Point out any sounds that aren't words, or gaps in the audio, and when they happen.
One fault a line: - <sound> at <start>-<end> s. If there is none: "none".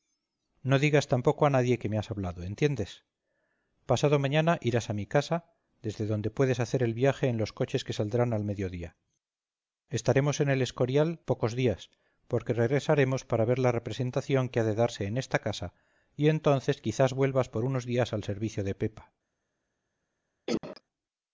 - cough at 20.5-20.8 s